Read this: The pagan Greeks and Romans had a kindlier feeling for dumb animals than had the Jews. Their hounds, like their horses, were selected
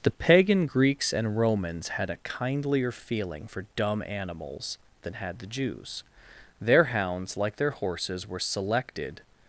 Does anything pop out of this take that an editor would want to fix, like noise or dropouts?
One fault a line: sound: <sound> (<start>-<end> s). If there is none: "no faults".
no faults